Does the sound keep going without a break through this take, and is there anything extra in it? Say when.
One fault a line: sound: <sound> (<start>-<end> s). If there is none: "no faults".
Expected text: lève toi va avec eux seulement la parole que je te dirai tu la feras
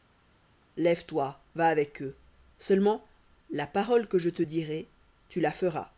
no faults